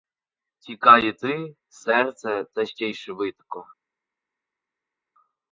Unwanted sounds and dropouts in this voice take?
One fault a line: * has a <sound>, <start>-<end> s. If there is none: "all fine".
all fine